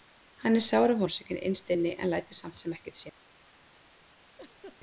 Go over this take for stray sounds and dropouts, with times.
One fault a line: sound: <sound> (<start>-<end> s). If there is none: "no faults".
sound: laugh (4.4-4.8 s)